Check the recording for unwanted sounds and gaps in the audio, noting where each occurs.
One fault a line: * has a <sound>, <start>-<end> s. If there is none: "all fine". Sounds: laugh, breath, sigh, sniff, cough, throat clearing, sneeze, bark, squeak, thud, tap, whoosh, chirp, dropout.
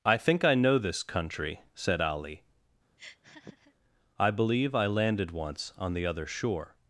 * has a laugh, 3.0-3.7 s